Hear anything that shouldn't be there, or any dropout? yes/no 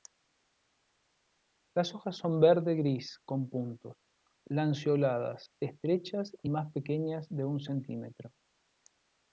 no